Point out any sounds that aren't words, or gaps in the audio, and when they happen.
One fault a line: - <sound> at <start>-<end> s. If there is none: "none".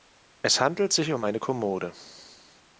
none